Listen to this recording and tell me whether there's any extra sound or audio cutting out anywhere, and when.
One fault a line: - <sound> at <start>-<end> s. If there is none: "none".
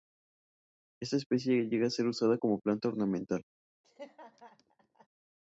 - laugh at 3.8-5.1 s